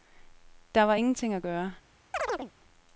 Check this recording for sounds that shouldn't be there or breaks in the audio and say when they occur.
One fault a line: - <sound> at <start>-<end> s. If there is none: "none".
- chirp at 2.1-2.5 s